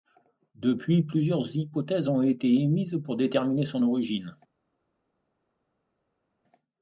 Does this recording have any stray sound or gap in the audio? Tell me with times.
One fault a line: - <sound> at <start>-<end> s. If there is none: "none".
none